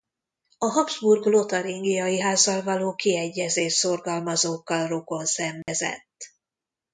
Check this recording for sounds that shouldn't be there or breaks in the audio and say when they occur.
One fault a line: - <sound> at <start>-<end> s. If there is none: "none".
- dropout at 5.6-5.7 s